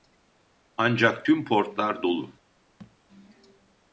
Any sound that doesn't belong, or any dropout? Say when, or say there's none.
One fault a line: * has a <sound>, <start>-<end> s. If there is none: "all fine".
* has a thud, 2.8-3.0 s